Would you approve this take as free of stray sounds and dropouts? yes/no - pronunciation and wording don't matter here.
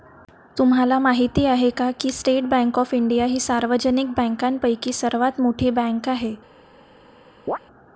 no